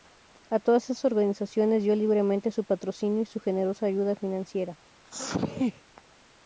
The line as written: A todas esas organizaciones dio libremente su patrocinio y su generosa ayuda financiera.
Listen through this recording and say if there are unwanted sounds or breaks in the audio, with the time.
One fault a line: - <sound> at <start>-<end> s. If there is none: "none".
- sneeze at 5.0-5.8 s